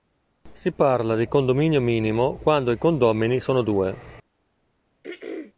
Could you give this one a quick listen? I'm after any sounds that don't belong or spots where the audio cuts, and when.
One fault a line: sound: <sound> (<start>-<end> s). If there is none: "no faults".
sound: throat clearing (5.0-5.5 s)